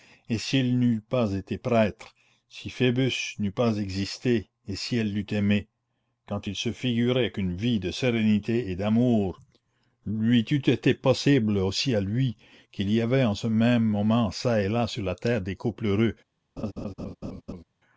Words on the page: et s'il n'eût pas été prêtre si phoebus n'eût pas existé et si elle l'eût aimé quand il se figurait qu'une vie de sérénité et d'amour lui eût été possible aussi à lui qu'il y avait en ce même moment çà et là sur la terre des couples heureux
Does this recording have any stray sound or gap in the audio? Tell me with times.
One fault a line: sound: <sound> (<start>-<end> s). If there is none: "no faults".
sound: laugh (16.6-17.6 s)